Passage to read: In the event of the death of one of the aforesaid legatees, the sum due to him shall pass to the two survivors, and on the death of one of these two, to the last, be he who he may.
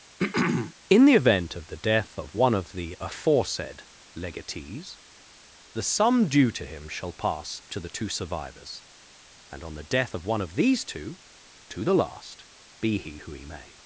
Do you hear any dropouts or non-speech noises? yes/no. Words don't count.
yes